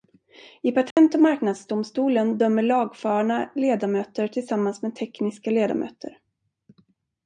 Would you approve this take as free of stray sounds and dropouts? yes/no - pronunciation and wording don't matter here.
no